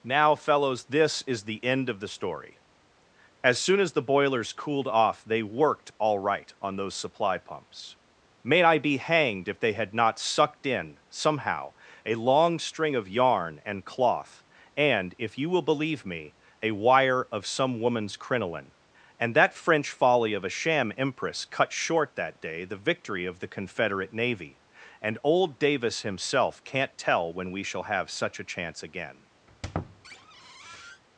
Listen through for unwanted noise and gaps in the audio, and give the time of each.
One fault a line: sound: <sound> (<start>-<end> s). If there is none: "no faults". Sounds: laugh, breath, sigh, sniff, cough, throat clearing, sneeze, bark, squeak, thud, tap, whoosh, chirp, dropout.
sound: squeak (29.5-31.0 s)